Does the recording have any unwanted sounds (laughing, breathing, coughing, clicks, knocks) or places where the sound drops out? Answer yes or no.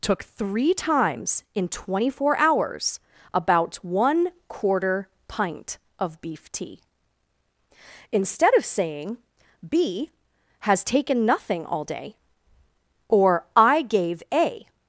no